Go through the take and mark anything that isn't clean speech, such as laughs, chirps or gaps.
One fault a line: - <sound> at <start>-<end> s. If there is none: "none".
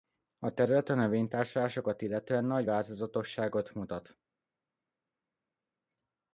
none